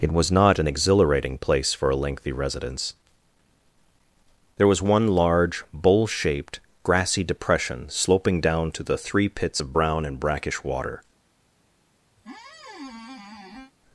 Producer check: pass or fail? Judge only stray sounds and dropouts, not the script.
fail